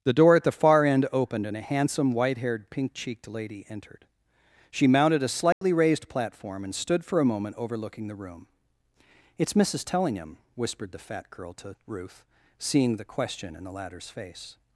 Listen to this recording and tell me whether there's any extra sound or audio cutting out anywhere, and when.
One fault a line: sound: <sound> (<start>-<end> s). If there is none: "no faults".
sound: dropout (5.5-5.6 s)